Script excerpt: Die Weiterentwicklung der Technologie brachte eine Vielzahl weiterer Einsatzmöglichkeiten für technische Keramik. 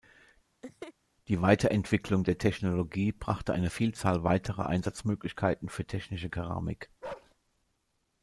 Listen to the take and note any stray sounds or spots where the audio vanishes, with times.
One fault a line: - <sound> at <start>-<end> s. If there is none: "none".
- laugh at 0.6-0.9 s
- bark at 7.0-7.3 s